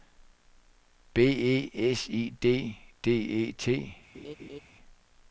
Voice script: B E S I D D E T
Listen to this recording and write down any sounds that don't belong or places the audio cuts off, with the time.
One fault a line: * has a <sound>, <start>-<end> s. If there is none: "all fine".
* has a laugh, 4.1-4.6 s